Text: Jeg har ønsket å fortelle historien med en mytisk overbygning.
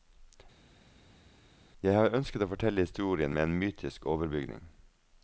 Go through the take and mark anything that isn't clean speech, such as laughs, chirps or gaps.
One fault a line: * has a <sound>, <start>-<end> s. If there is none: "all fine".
all fine